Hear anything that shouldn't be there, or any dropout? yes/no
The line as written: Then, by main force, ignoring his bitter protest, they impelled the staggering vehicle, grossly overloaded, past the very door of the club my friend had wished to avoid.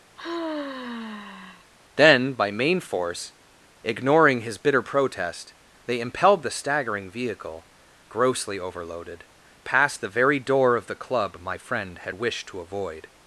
yes